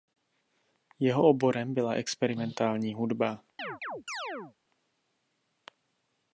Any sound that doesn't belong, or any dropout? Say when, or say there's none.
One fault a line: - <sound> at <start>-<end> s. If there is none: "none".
- chirp at 3.6-4.6 s